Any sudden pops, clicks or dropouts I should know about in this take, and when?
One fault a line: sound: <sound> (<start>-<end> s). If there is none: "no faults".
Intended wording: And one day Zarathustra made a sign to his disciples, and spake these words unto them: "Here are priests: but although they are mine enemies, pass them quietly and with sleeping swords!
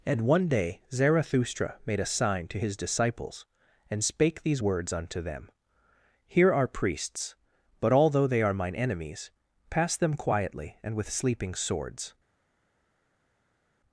no faults